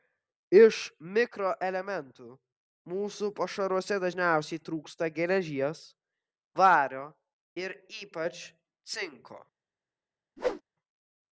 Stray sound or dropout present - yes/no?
yes